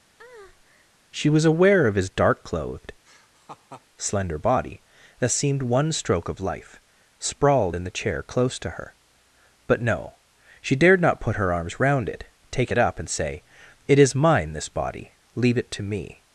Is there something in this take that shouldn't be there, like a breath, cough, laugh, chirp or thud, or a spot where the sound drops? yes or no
yes